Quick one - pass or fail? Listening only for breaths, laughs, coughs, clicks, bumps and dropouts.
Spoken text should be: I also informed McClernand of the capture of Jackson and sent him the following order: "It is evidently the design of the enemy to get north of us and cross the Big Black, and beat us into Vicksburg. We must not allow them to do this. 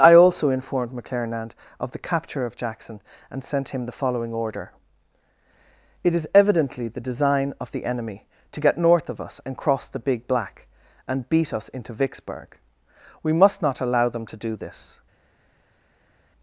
pass